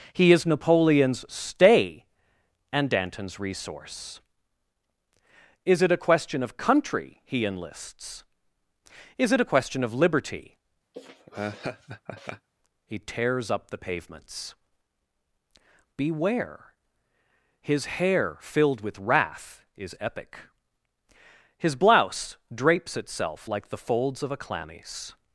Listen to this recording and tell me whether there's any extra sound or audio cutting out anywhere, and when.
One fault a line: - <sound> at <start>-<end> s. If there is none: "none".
- laugh at 10.9-12.5 s